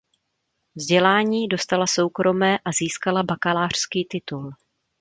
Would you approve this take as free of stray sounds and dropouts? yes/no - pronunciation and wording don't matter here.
yes